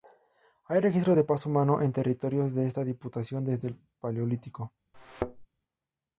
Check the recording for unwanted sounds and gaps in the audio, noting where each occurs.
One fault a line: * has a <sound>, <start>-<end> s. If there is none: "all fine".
* has a thud, 4.9-5.5 s